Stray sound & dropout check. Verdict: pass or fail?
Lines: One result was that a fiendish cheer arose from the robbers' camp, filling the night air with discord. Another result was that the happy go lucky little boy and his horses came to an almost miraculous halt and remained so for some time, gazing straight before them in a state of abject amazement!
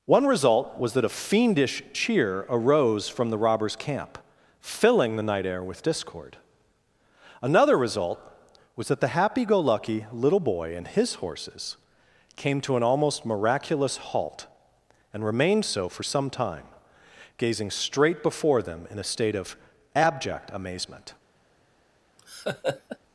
fail